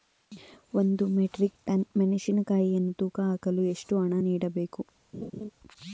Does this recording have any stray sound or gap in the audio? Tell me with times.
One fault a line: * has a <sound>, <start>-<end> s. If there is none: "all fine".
* has a laugh, 5.1-5.5 s